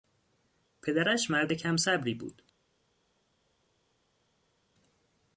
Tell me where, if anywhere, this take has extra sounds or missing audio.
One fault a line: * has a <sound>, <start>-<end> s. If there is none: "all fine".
all fine